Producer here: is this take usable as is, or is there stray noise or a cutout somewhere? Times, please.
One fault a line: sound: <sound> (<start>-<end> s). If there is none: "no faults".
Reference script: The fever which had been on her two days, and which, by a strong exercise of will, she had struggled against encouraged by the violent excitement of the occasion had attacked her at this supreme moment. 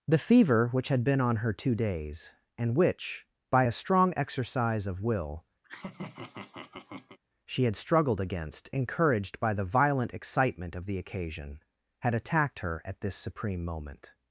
sound: laugh (5.6-7.2 s)